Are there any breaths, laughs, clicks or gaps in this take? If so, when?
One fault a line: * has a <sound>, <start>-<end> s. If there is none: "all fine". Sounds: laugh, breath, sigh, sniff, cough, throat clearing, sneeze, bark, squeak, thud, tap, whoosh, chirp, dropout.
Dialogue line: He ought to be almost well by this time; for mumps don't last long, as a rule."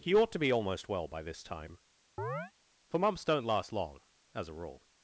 * has a chirp, 2.2-2.5 s